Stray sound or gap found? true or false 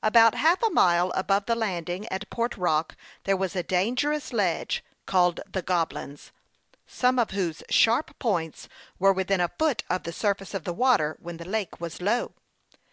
false